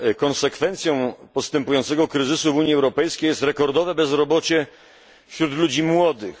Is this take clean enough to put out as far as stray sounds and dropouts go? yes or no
yes